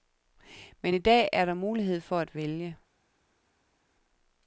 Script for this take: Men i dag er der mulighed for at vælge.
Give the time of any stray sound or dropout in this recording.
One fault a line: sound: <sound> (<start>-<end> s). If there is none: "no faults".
no faults